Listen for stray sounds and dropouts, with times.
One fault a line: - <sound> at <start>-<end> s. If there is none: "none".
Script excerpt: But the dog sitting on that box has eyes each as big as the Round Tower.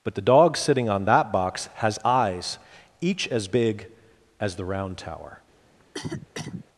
- cough at 5.8-6.6 s